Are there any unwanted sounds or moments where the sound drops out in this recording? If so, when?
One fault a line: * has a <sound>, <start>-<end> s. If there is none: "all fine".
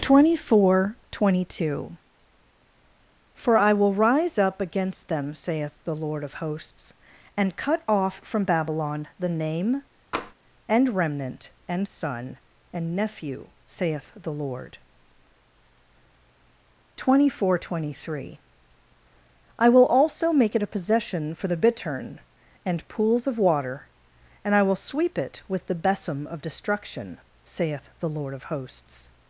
* has a tap, 10.1-10.3 s